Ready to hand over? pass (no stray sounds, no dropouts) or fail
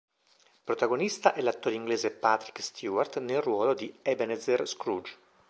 pass